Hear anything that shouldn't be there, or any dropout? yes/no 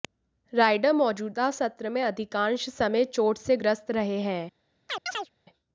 yes